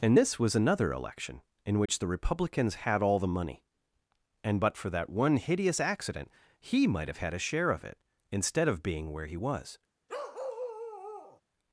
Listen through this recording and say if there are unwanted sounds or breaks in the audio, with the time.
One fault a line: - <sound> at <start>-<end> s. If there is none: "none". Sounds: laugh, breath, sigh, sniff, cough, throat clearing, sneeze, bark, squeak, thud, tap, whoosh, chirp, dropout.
- dropout at 1.9-1.9 s
- bark at 10.1-11.4 s